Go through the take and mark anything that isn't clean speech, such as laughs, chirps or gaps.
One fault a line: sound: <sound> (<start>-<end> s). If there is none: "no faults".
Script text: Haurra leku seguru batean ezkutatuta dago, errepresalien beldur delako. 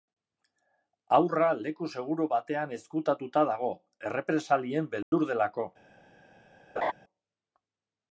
sound: dropout (5.0-5.1 s)
sound: laugh (6.8-6.9 s)